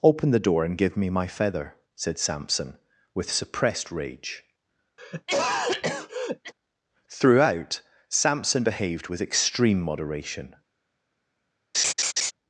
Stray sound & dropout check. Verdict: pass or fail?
fail